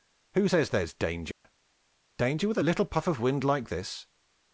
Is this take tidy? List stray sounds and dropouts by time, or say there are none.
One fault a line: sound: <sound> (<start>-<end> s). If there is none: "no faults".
sound: dropout (1.3-1.4 s)